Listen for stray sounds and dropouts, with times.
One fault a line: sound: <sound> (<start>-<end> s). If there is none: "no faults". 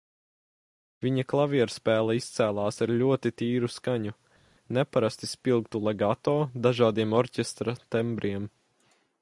no faults